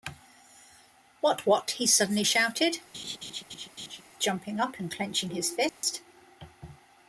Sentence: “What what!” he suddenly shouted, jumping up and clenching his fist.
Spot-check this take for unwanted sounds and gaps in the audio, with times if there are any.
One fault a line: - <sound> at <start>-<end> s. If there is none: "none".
- laugh at 2.9-4.0 s
- dropout at 5.7-5.8 s